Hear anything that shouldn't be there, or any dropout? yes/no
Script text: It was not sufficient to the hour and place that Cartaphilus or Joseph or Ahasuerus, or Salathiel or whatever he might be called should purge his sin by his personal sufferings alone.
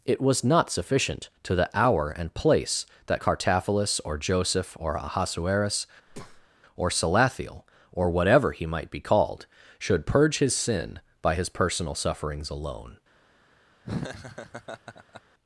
yes